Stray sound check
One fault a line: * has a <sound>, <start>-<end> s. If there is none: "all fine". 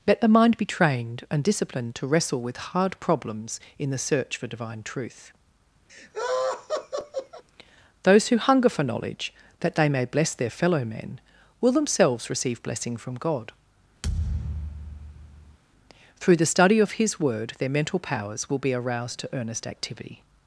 * has a laugh, 5.9-7.4 s
* has a thud, 14.0-15.6 s